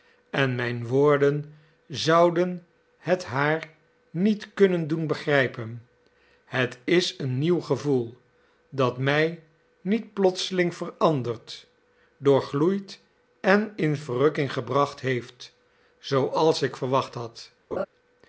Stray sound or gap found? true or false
true